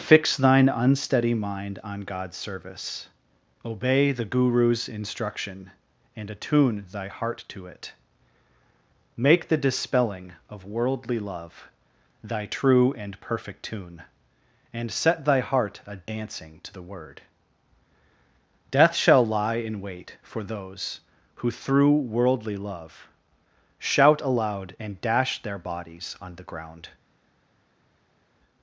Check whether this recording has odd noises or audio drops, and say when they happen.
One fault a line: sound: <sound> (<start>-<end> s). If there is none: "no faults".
no faults